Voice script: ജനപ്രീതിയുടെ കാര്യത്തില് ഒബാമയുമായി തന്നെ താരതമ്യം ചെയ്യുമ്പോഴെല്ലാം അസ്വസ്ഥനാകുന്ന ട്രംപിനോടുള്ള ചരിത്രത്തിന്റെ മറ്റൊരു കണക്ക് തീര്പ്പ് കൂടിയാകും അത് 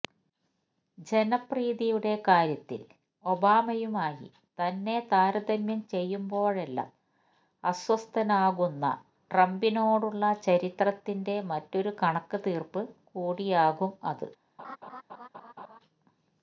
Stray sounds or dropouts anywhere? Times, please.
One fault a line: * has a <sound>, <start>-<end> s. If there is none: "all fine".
* has a laugh, 14.6-15.8 s